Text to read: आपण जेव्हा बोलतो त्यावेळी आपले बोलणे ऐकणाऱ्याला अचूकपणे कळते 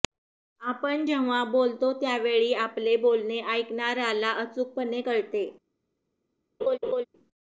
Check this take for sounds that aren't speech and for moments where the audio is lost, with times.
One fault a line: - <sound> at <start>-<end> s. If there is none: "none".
- laugh at 6.6-7.1 s